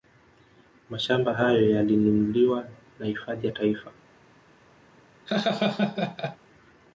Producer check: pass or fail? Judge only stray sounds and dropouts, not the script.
fail